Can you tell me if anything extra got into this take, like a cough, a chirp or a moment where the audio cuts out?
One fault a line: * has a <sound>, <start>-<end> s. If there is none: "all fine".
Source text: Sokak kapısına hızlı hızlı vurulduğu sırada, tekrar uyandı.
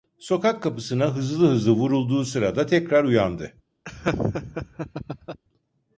* has a laugh, 3.9-5.4 s